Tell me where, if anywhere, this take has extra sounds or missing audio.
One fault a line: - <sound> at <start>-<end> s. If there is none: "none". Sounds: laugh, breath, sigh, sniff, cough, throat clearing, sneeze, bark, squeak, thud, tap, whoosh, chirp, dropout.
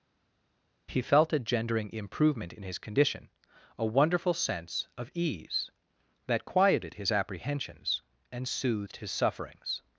none